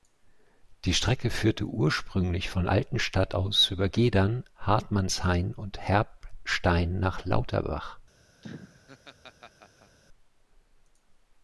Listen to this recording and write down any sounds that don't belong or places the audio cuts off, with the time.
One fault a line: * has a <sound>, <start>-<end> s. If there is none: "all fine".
* has a laugh, 8.4-10.0 s